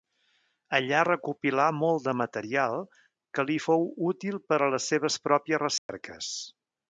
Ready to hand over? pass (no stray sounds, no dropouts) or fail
fail